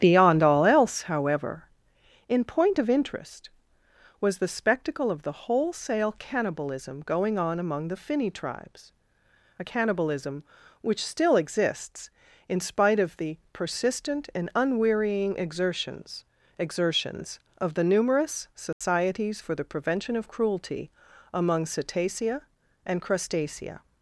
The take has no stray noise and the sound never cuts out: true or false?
false